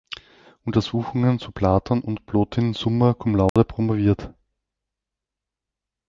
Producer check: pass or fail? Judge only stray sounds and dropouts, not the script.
fail